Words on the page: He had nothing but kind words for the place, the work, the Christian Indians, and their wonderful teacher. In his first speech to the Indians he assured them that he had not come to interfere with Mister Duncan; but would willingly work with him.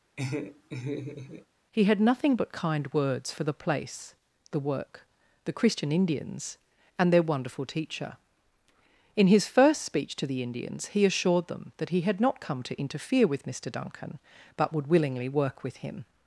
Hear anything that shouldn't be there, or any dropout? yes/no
yes